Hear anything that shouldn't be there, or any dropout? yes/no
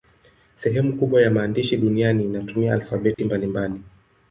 yes